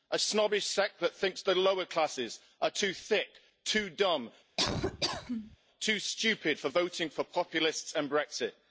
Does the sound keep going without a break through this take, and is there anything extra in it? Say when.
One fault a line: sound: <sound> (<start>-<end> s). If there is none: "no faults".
sound: laugh (4.6-5.6 s)